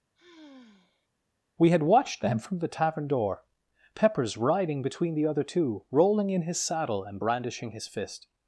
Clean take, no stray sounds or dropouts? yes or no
no